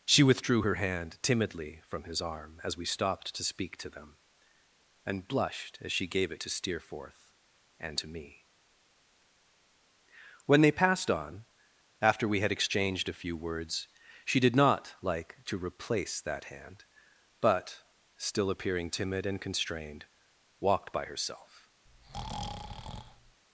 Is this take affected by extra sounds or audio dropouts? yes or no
yes